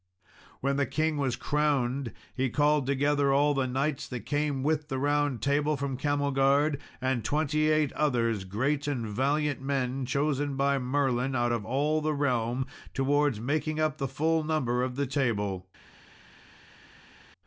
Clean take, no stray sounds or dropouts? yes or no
yes